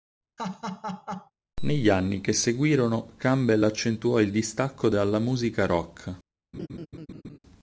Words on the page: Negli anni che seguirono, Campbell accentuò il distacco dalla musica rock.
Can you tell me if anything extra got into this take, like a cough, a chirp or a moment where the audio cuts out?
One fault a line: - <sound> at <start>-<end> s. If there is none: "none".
- laugh at 0.4-1.3 s
- laugh at 6.5-7.4 s